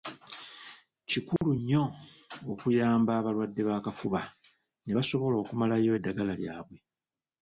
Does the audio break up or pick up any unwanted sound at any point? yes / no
yes